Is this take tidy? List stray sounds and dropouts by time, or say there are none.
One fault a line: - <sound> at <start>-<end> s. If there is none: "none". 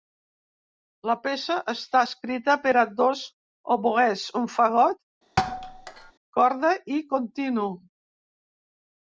- thud at 5.4-6.1 s